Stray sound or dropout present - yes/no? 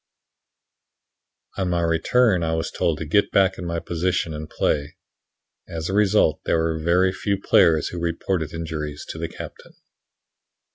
no